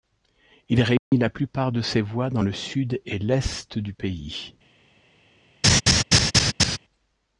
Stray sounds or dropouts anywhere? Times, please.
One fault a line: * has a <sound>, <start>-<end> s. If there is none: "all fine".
* has a dropout, 1.0-1.1 s
* has a laugh, 5.6-6.8 s